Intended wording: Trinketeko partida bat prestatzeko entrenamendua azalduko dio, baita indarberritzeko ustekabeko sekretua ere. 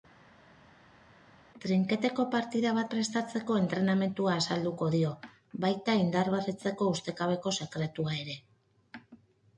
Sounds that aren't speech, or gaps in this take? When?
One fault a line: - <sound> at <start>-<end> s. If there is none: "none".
none